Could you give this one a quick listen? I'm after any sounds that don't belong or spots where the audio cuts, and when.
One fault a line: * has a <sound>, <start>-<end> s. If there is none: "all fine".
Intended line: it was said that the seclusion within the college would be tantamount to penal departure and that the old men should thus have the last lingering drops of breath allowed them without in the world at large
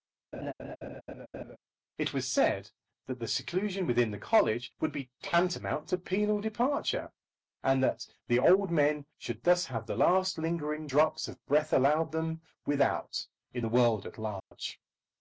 * has a laugh, 0.3-1.6 s
* has a dropout, 14.4-14.5 s